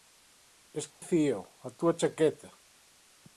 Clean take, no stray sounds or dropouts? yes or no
no